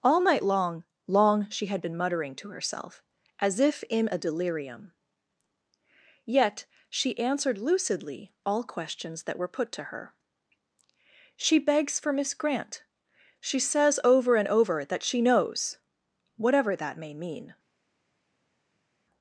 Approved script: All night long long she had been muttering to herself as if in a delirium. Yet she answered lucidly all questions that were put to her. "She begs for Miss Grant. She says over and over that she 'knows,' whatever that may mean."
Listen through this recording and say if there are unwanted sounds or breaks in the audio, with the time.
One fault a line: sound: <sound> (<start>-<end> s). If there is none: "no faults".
no faults